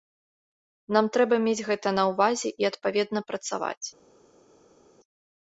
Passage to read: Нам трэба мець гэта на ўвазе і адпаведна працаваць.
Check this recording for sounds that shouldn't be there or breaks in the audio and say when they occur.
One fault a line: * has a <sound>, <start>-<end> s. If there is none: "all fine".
all fine